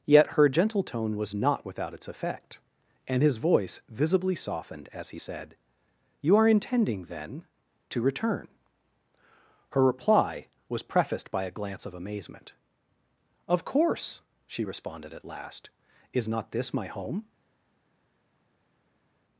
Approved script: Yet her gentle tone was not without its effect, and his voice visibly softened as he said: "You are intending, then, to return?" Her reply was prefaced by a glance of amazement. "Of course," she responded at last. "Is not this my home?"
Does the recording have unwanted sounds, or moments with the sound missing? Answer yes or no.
no